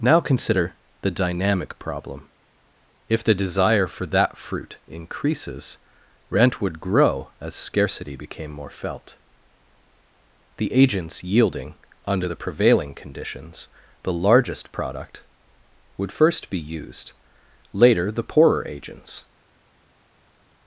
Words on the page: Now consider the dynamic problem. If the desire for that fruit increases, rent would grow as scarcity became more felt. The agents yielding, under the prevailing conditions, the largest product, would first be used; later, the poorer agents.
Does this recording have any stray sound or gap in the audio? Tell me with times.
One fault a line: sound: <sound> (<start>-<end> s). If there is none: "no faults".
no faults